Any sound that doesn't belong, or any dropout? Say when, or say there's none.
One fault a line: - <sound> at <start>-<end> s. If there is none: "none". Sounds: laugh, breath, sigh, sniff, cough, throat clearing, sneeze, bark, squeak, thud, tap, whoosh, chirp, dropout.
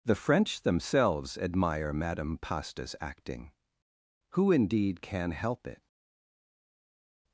none